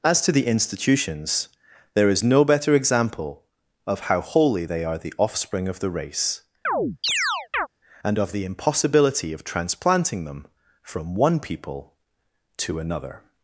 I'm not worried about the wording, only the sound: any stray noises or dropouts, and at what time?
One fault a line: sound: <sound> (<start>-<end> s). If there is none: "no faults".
sound: chirp (6.6-7.7 s)